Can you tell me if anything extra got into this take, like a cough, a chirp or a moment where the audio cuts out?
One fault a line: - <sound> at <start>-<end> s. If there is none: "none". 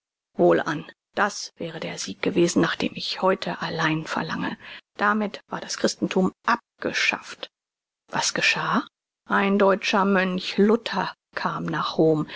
none